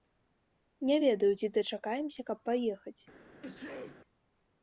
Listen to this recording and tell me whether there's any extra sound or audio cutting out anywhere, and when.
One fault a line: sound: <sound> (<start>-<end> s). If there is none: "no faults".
sound: sneeze (3.4-4.0 s)